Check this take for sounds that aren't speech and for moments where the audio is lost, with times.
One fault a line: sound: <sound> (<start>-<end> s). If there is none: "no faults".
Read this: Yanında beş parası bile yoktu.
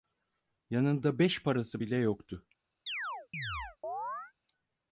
sound: chirp (2.9-4.3 s)